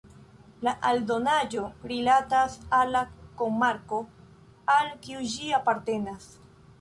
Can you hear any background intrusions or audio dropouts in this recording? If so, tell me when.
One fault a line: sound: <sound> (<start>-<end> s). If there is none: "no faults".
no faults